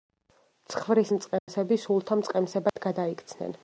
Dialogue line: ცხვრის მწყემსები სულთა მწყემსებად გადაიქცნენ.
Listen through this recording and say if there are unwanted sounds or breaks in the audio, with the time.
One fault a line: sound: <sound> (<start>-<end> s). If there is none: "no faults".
sound: dropout (1.4-1.5 s)
sound: dropout (2.7-2.8 s)